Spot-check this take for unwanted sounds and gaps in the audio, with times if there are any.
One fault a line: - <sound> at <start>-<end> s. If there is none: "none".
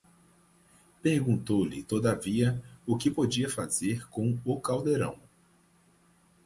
none